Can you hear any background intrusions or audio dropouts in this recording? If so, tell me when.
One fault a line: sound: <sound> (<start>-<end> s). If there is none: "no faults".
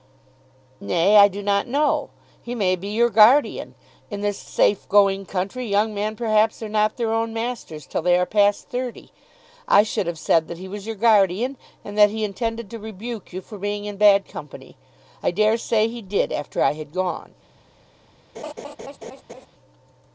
sound: laugh (18.3-19.5 s)